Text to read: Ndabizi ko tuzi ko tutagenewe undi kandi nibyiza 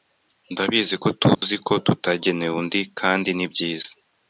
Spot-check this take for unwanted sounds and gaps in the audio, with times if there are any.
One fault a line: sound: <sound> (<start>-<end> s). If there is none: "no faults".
sound: dropout (1.3-1.4 s)